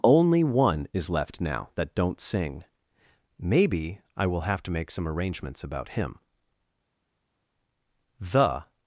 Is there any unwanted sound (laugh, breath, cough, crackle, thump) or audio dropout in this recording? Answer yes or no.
no